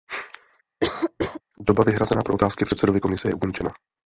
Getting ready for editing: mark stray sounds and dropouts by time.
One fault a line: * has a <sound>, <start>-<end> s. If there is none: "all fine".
* has a cough, 0.8-1.4 s